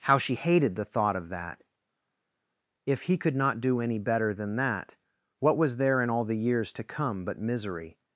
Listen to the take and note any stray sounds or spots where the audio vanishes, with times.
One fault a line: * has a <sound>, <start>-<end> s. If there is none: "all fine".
all fine